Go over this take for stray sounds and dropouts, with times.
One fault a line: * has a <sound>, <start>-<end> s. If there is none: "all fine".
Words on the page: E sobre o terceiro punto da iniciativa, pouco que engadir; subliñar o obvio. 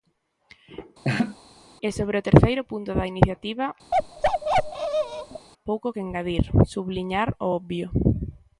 * has a laugh, 1.0-1.4 s
* has a bark, 3.9-5.5 s